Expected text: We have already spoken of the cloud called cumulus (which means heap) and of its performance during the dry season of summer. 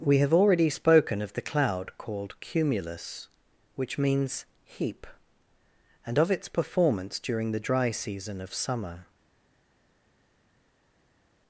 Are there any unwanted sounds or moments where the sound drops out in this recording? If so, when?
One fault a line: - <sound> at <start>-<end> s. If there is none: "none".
none